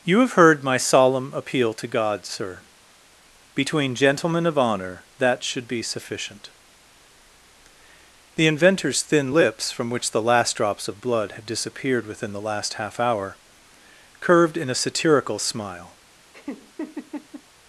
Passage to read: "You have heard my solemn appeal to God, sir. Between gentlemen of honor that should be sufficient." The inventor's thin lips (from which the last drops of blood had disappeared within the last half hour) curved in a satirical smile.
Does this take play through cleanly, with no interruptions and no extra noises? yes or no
no